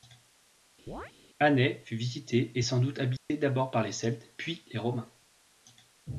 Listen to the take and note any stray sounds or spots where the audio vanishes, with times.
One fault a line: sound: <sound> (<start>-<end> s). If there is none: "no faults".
sound: chirp (0.9-1.1 s)
sound: dropout (3.2-3.3 s)